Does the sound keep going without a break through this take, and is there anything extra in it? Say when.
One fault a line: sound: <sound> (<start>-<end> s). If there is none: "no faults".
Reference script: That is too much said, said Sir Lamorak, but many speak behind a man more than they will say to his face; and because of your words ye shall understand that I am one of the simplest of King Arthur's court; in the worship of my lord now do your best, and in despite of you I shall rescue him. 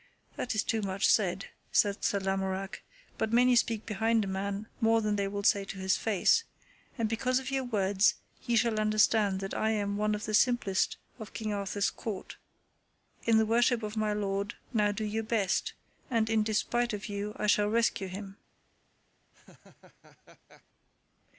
sound: laugh (19.3-20.6 s)